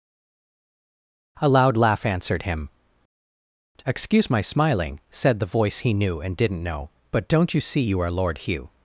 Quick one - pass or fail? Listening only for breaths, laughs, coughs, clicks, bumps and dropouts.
pass